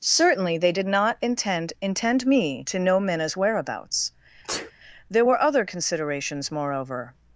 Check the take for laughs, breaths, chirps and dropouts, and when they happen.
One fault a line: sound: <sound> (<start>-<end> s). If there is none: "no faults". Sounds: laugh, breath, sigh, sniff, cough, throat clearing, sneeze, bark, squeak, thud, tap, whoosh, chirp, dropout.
sound: sneeze (4.4-4.7 s)